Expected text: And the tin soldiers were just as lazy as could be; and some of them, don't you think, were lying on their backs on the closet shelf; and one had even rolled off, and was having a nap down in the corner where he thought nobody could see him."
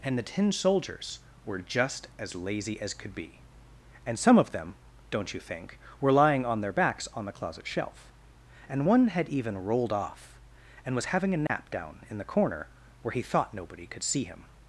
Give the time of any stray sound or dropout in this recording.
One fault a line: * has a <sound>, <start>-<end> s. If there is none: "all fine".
* has a dropout, 11.5-11.5 s